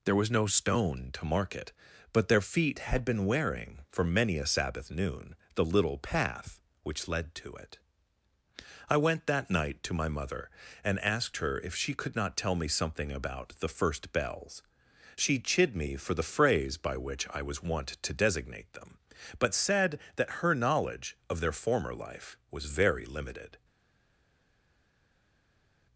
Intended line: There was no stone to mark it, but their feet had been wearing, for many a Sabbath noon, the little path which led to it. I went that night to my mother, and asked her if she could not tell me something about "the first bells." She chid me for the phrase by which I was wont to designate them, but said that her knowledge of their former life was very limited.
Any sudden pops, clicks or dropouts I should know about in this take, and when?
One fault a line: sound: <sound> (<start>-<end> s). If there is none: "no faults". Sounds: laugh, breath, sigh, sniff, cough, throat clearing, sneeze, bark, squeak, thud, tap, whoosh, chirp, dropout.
no faults